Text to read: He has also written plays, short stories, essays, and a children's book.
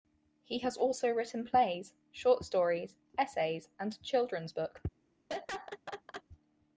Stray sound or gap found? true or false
true